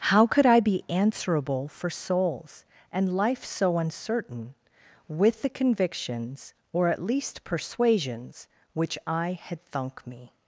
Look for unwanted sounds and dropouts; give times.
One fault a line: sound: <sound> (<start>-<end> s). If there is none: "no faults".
no faults